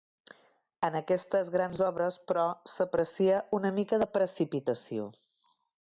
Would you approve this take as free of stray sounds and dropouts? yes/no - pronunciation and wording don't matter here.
yes